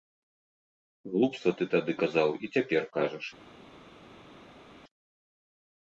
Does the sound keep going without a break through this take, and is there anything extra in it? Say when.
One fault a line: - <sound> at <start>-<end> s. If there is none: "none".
none